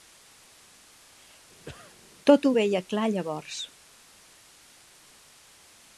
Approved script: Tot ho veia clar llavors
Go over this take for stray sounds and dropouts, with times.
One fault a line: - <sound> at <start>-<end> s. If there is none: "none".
- cough at 1.6-2.0 s